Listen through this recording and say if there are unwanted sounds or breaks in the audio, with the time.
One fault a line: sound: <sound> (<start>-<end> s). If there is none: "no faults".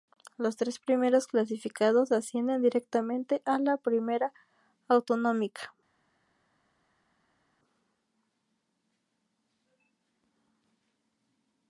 no faults